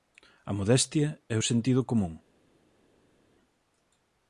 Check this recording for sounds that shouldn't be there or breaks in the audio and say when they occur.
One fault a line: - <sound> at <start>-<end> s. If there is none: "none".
none